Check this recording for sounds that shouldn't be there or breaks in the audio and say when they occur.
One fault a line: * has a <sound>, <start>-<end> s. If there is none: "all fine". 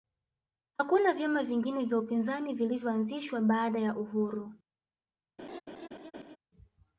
* has a laugh, 5.4-6.4 s